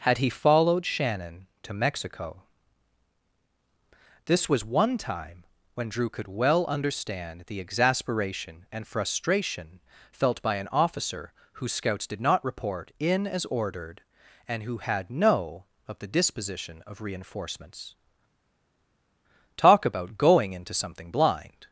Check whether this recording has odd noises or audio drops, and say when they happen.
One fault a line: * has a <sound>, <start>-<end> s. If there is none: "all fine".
all fine